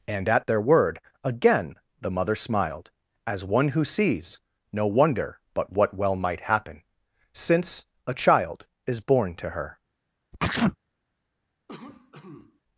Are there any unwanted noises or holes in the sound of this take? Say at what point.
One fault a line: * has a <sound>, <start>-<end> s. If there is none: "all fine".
* has a sneeze, 10.3-10.8 s
* has a cough, 11.7-12.6 s